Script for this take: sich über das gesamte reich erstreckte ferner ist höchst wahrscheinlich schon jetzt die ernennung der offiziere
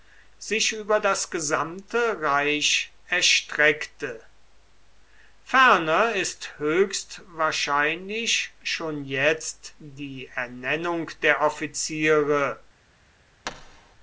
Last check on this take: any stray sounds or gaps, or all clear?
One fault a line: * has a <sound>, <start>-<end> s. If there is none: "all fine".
* has a thud, 13.4-14.0 s